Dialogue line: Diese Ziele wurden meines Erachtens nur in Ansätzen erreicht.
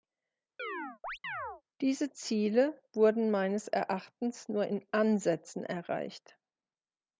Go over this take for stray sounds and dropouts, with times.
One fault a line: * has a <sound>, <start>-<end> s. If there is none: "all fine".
* has a chirp, 0.6-1.6 s